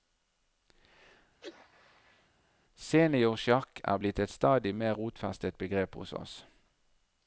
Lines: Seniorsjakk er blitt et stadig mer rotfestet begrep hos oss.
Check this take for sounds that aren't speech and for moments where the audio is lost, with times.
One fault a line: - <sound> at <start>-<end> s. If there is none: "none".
- sneeze at 1.4-2.3 s